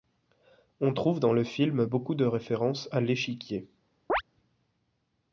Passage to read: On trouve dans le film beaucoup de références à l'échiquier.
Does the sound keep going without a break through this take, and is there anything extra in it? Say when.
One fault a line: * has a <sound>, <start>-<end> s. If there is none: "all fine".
* has a chirp, 4.1-4.2 s